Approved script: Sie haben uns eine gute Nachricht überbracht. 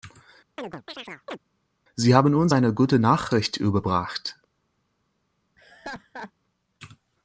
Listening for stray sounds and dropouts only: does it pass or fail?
fail